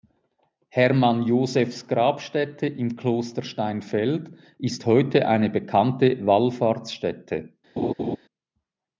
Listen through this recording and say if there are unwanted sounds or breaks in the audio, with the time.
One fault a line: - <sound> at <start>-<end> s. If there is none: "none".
- laugh at 7.8-8.2 s